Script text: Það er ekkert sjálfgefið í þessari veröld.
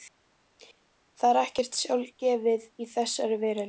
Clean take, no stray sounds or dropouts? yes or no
yes